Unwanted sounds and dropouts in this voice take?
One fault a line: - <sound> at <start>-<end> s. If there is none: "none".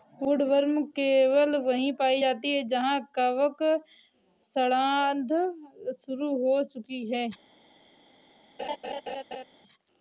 - laugh at 8.6-9.4 s